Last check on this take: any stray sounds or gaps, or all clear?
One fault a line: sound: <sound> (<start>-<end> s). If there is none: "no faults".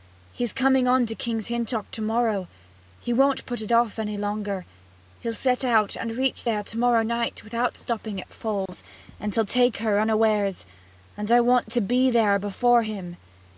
sound: dropout (8.7-8.7 s)